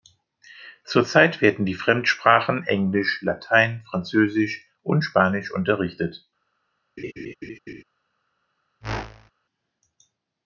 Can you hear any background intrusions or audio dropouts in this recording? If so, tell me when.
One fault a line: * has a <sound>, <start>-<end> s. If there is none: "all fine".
* has a laugh, 7.0-7.8 s
* has a whoosh, 8.8-9.3 s